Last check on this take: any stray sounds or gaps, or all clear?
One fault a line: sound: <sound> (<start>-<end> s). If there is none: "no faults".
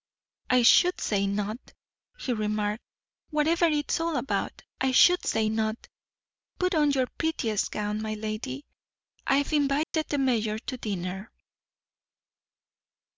sound: dropout (9.8-9.9 s)